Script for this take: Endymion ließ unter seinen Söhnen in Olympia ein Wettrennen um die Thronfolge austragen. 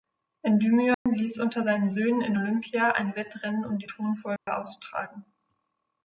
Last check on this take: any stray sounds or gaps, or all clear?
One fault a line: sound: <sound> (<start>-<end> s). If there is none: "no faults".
sound: dropout (0.9-1.1 s)
sound: dropout (4.4-4.5 s)